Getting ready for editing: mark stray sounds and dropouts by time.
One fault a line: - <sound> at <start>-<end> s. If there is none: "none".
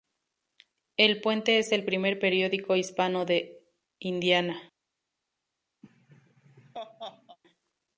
- laugh at 5.8-7.4 s